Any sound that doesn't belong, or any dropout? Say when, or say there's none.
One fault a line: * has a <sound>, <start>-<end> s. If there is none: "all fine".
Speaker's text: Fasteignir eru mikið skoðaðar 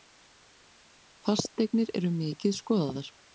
all fine